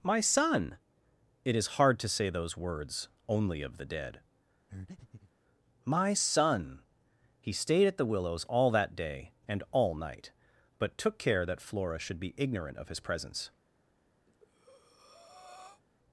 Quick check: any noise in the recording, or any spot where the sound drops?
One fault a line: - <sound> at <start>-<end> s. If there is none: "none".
- breath at 4.7-5.3 s
- breath at 14.3-15.8 s